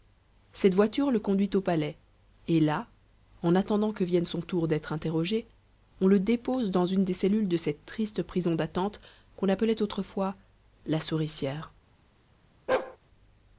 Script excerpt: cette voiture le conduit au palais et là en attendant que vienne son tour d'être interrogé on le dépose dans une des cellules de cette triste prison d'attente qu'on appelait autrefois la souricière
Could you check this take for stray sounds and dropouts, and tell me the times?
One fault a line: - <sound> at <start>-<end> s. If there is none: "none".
- bark at 12.7-13.0 s